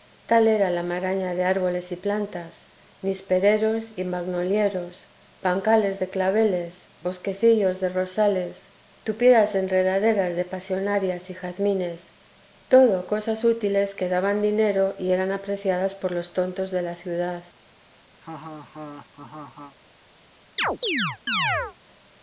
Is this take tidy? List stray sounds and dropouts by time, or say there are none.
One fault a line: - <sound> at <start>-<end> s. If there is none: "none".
- laugh at 18.2-19.8 s
- chirp at 20.6-21.8 s